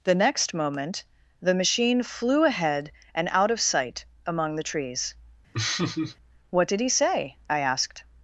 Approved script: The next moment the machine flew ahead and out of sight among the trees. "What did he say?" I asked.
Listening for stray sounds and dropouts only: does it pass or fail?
fail